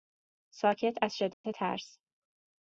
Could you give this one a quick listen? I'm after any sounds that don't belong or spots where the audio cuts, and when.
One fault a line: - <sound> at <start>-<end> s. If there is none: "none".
- dropout at 1.3-1.4 s